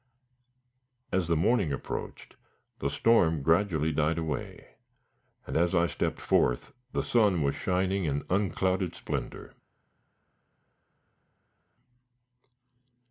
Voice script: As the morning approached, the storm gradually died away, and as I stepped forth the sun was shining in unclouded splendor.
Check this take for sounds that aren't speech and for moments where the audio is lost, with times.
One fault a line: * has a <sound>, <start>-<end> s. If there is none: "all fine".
all fine